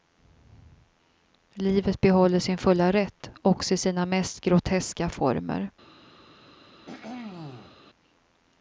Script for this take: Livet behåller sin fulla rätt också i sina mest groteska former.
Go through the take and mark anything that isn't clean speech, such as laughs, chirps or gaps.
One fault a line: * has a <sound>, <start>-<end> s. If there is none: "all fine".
* has a throat clearing, 6.9-7.8 s